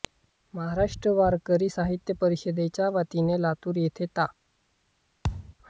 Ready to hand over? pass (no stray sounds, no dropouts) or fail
fail